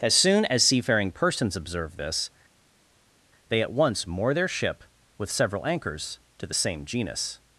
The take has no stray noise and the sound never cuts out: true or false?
true